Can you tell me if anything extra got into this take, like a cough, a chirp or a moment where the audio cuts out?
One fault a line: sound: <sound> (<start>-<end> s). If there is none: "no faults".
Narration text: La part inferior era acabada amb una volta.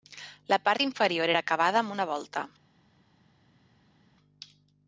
no faults